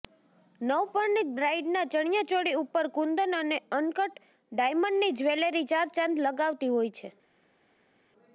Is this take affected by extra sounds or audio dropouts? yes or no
no